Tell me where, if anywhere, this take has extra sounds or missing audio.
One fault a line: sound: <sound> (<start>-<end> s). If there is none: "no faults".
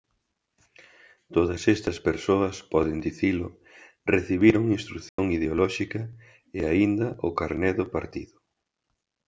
sound: dropout (5.1-5.2 s)